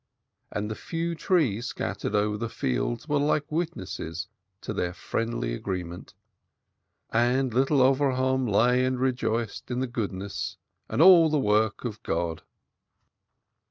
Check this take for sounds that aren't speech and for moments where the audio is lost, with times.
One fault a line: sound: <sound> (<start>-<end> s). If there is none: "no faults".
no faults